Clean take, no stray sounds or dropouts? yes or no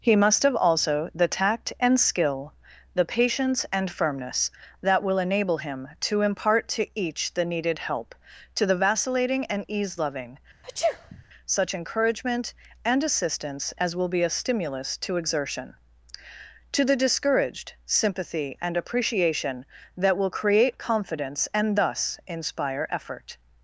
no